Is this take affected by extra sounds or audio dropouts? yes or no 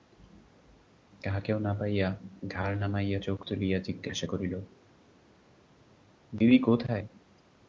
no